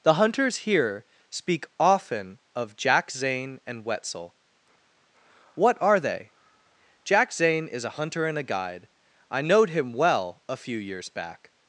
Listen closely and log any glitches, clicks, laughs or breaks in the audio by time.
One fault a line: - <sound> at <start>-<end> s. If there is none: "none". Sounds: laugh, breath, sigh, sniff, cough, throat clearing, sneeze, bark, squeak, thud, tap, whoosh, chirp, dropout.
none